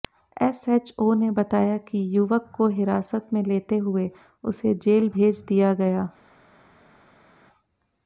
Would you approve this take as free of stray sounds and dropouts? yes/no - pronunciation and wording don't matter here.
yes